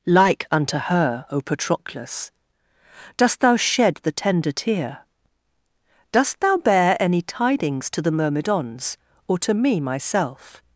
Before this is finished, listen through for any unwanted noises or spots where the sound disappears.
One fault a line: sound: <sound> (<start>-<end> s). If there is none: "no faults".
no faults